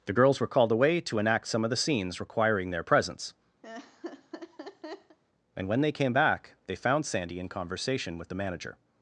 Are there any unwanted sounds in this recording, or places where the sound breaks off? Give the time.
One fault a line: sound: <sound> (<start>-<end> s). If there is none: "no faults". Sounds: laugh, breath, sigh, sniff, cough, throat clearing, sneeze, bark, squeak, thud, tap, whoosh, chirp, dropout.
sound: laugh (3.6-5.2 s)